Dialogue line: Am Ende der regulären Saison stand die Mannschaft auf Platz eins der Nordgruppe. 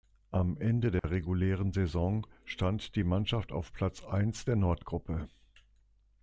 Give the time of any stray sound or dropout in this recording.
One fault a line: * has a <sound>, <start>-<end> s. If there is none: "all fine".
* has a dropout, 1.0-1.0 s